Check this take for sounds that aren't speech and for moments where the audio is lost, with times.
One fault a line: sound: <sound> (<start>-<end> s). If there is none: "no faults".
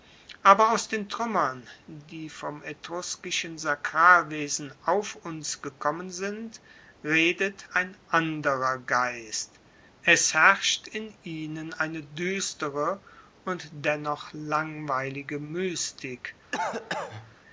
sound: cough (16.5-17.4 s)